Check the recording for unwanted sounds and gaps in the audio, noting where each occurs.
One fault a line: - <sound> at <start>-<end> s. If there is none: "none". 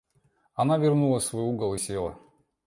none